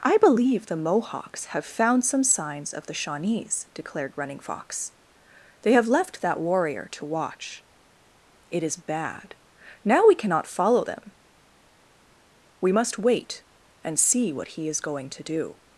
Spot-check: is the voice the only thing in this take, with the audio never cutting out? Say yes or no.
yes